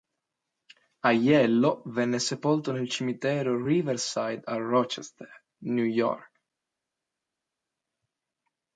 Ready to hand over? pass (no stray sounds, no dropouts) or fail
pass